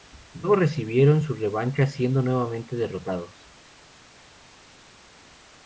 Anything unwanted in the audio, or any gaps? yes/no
no